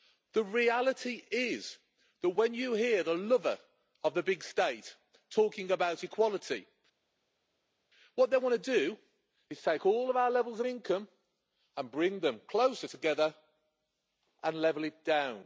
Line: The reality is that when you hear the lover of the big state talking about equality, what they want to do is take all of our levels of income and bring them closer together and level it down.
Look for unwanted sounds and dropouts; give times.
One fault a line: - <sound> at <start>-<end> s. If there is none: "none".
none